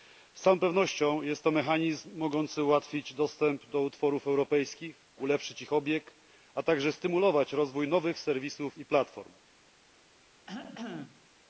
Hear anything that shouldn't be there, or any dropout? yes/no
yes